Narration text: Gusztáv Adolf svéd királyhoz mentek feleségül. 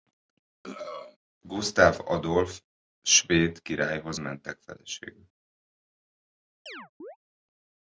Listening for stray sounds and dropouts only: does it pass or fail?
fail